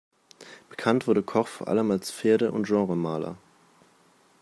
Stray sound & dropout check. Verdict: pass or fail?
pass